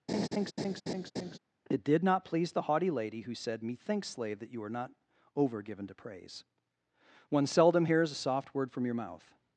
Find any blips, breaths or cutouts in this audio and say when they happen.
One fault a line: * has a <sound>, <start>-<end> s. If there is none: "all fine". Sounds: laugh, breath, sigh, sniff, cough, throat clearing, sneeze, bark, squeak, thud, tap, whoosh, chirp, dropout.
* has a laugh, 0.1-1.4 s